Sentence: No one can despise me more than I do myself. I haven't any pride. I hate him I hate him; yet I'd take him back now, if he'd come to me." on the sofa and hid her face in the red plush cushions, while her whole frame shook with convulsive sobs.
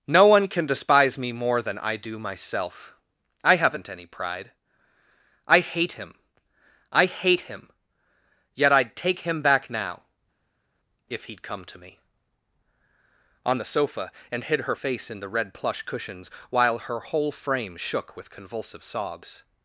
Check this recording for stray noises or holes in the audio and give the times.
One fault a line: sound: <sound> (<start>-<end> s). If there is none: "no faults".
no faults